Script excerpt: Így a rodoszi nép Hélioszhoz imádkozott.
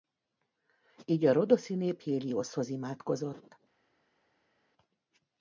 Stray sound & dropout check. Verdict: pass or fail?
pass